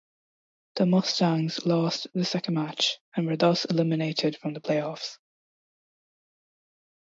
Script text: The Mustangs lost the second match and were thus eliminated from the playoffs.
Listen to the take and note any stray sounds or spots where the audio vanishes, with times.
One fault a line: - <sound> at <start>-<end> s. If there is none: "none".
none